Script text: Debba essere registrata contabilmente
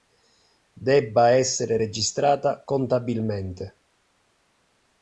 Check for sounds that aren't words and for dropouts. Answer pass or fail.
pass